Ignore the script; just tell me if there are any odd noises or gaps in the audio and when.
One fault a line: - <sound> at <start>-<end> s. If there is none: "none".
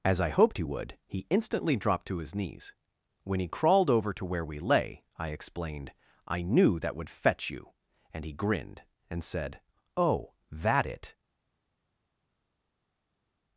none